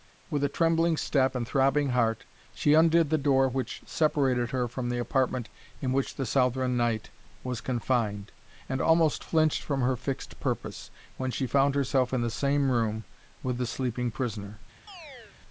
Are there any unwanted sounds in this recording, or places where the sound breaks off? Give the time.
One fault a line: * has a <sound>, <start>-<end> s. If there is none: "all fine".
* has a chirp, 14.9-15.4 s